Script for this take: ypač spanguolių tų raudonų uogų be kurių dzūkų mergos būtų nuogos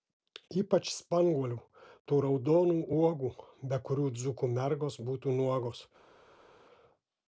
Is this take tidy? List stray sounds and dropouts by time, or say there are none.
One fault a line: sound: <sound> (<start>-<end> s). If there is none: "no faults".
no faults